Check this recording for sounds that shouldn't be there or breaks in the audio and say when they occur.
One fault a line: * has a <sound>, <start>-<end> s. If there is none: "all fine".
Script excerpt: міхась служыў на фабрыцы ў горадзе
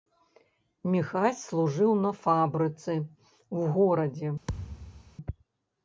* has a thud, 4.5-5.2 s